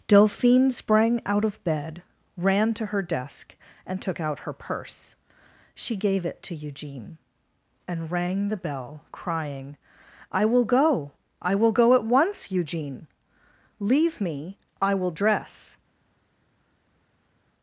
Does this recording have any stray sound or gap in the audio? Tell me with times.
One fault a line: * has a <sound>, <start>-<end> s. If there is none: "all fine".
all fine